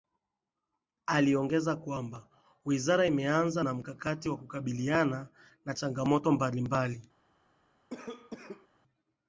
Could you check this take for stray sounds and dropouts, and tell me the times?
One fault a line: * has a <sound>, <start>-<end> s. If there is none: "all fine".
* has a cough, 7.9-8.7 s